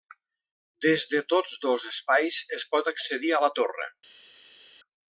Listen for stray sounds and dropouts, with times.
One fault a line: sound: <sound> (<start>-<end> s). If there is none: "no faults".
no faults